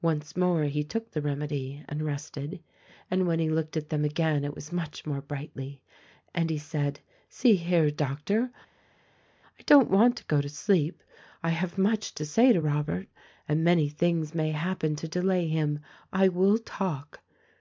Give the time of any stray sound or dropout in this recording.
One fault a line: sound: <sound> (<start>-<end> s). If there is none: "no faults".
no faults